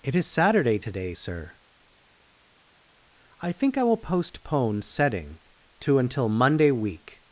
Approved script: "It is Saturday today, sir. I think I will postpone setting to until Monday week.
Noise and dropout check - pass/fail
pass